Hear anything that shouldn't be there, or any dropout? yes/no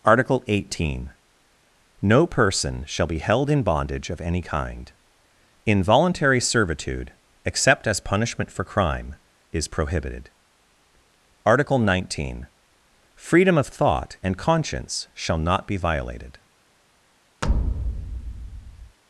yes